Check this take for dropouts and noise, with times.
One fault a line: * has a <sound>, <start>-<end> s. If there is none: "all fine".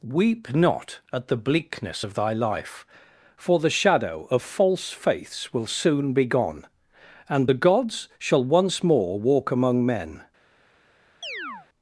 * has a chirp, 11.2-11.7 s